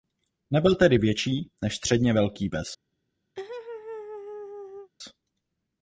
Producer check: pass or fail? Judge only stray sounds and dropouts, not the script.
fail